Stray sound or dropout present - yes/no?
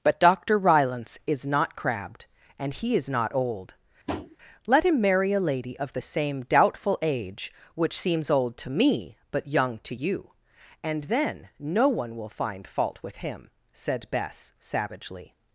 yes